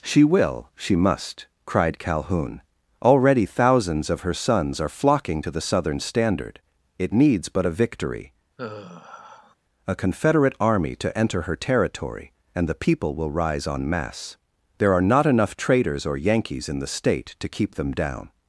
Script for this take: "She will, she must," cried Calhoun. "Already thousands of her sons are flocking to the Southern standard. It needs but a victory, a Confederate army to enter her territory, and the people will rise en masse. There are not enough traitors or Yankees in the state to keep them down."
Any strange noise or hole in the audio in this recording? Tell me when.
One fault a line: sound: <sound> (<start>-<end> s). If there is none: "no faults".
sound: sigh (8.6-9.6 s)